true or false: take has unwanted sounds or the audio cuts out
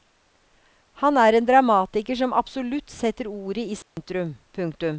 true